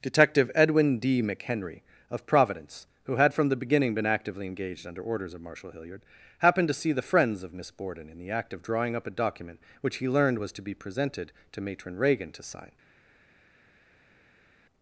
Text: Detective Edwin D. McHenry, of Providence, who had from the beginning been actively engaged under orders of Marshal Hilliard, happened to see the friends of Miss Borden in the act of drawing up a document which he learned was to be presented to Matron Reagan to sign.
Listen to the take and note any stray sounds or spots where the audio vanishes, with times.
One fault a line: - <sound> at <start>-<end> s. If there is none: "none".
none